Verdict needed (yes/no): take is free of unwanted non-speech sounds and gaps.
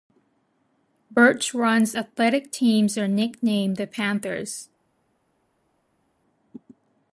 yes